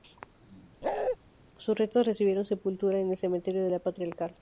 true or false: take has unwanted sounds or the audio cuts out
true